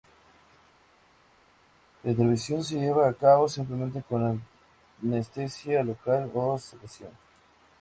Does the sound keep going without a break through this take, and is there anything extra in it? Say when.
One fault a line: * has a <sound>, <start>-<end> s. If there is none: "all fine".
all fine